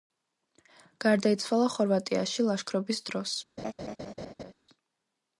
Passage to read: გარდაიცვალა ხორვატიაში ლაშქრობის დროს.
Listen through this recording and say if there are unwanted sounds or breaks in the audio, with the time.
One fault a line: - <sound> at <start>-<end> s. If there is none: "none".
- laugh at 3.6-4.5 s